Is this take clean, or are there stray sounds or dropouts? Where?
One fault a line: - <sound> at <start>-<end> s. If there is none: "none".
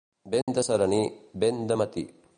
- dropout at 0.4-0.5 s